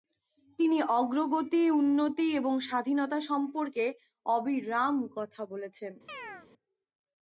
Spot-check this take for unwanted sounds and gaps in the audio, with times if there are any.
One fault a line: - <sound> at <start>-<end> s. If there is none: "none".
- chirp at 6.1-6.5 s